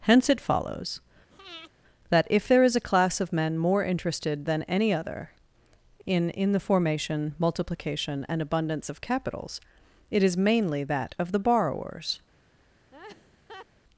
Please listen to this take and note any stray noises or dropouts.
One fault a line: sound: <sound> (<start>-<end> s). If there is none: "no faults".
sound: breath (1.3-1.7 s)
sound: laugh (12.9-13.7 s)